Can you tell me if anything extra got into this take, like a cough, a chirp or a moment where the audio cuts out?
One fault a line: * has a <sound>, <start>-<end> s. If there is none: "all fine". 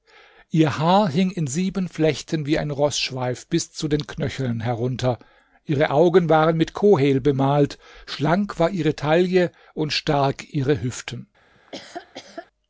* has a laugh, 11.5-12.5 s